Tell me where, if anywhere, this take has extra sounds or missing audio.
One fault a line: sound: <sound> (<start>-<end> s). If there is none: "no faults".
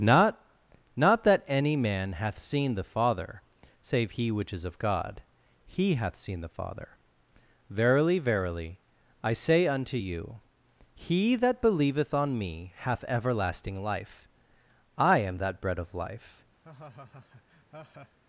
sound: laugh (16.6-18.2 s)